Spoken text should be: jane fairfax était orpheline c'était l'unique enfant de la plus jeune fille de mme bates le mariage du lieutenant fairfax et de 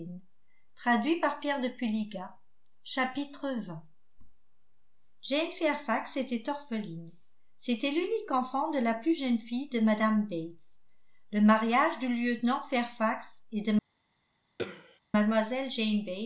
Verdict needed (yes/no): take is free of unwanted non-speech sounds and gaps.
no